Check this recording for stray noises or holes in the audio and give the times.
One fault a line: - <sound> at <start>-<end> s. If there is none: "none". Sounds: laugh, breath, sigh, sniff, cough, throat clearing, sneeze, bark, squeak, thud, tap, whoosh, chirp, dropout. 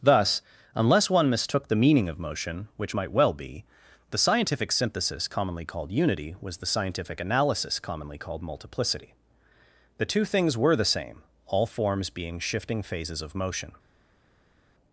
none